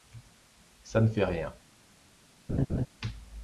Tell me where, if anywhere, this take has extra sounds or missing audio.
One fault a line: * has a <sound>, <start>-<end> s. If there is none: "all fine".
* has a laugh, 2.5-2.9 s